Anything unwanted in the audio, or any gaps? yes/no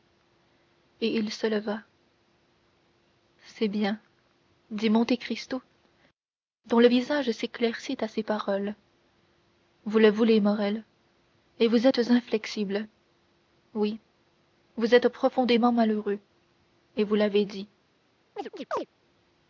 yes